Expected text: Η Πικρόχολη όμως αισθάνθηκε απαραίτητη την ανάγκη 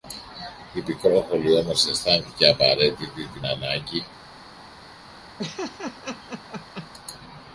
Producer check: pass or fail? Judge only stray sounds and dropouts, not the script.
fail